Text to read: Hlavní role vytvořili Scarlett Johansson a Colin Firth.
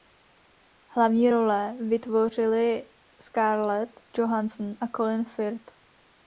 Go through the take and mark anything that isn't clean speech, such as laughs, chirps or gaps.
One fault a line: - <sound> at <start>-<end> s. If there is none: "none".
none